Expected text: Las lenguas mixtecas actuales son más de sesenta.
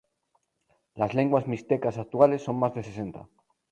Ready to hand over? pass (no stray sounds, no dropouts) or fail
pass